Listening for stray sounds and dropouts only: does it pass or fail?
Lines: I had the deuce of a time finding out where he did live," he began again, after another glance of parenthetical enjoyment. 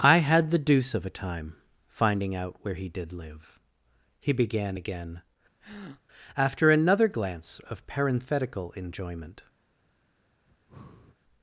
fail